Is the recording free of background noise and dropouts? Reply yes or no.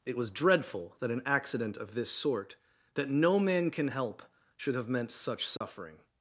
no